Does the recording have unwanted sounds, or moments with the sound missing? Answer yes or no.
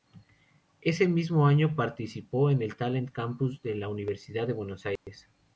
yes